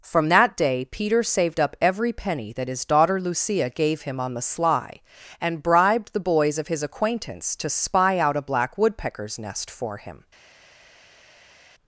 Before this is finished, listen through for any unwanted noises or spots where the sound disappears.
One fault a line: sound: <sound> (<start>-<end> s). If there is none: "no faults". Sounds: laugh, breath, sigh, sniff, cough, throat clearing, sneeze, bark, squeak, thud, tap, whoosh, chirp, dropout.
no faults